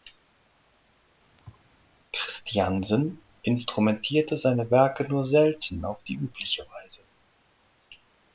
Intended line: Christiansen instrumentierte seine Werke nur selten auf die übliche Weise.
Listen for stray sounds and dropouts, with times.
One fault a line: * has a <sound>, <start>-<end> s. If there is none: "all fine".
* has a thud, 1.4-1.7 s